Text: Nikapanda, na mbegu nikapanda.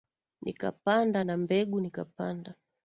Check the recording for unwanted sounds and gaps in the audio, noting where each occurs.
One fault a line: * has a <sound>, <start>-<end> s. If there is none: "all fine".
all fine